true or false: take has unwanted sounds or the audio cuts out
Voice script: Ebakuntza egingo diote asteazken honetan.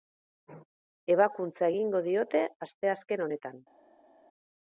false